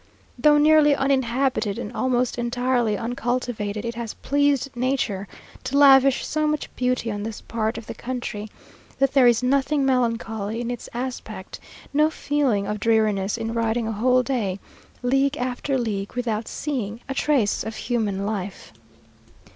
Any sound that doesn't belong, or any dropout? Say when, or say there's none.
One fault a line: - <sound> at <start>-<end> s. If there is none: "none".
none